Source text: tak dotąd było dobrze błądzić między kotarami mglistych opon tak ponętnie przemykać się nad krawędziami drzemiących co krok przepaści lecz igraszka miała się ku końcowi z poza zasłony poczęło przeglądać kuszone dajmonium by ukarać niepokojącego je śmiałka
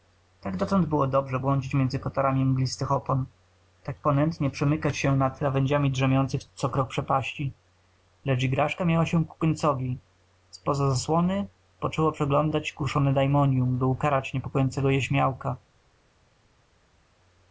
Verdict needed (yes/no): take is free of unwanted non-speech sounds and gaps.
yes